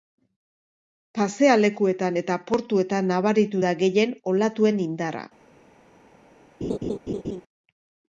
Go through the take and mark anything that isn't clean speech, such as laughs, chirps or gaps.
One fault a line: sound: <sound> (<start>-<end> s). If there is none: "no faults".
sound: laugh (6.6-7.4 s)